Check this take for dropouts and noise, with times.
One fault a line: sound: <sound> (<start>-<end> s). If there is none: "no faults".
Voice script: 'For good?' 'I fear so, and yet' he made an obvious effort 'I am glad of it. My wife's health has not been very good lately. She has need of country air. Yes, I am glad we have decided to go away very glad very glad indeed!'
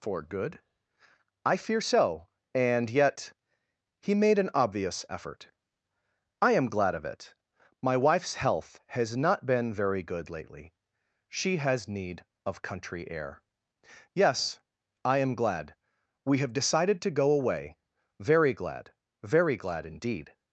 no faults